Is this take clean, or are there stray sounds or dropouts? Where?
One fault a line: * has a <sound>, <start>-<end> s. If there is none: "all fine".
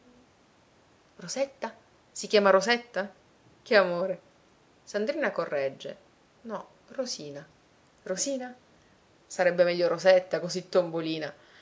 all fine